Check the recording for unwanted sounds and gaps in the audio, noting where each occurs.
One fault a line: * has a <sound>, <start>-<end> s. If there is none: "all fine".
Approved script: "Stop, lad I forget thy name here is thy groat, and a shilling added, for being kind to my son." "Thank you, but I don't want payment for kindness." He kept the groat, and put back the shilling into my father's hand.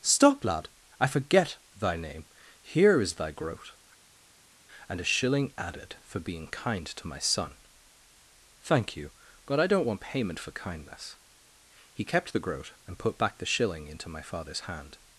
all fine